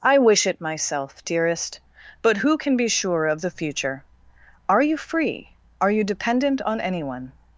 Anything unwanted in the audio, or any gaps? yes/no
no